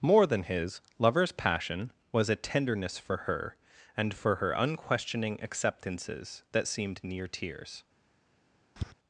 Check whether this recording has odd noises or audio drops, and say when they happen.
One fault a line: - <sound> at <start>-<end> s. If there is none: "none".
- tap at 8.8-8.9 s